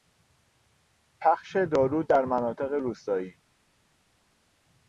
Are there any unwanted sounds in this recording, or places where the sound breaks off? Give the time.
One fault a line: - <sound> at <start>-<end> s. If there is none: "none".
none